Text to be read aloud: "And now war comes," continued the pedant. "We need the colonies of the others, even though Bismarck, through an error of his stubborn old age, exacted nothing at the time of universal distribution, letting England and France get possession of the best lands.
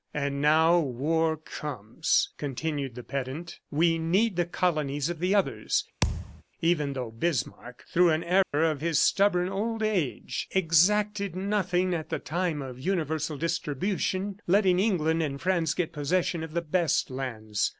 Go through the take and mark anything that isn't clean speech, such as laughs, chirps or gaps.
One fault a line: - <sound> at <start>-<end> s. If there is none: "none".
- thud at 6.0-6.4 s
- dropout at 8.4-8.5 s